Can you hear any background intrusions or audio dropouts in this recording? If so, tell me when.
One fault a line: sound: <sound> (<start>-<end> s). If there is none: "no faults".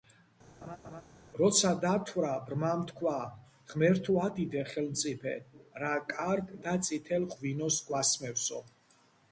sound: laugh (0.6-1.0 s)